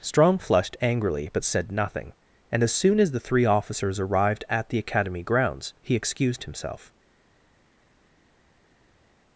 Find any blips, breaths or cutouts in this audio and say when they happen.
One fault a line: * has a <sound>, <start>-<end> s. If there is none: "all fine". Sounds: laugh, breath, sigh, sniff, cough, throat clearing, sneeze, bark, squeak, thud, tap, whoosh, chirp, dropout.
all fine